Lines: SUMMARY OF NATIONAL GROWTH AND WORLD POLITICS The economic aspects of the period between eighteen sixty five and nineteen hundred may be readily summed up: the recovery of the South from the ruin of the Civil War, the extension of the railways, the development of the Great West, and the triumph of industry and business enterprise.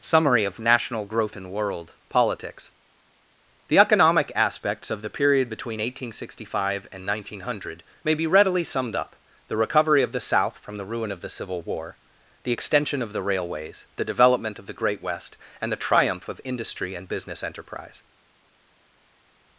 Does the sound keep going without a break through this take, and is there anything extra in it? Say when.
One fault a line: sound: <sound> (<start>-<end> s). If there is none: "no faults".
no faults